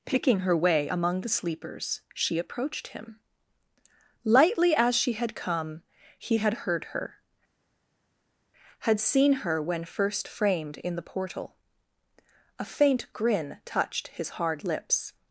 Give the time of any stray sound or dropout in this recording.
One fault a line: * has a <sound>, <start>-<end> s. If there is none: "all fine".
all fine